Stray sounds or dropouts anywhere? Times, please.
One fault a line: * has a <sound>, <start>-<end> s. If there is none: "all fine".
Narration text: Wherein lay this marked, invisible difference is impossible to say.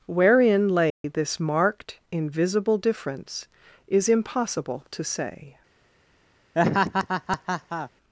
* has a dropout, 0.9-1.0 s
* has a laugh, 6.6-7.9 s